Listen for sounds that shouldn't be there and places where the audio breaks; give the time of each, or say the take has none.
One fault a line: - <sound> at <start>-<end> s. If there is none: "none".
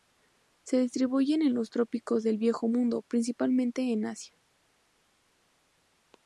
none